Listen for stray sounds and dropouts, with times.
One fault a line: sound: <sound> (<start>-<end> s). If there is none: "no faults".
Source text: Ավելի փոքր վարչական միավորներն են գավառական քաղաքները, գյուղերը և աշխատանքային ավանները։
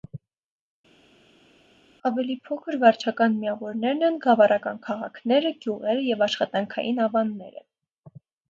no faults